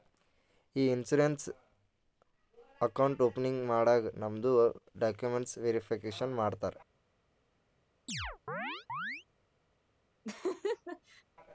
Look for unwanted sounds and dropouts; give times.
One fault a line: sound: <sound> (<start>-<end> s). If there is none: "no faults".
sound: chirp (8.1-9.2 s)
sound: laugh (10.2-11.2 s)